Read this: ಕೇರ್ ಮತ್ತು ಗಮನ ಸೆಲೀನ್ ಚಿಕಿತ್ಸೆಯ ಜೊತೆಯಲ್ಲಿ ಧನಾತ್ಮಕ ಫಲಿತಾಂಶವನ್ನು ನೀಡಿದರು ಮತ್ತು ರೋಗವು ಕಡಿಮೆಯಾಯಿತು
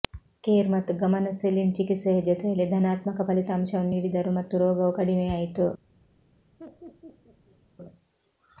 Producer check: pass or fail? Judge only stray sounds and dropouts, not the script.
fail